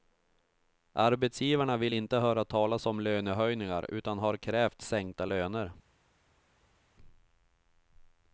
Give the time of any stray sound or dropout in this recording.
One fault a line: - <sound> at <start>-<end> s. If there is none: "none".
none